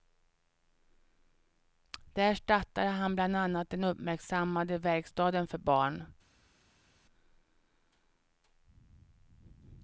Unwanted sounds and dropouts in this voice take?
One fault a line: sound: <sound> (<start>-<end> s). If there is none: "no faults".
no faults